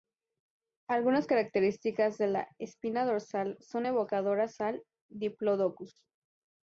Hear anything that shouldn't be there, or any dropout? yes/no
no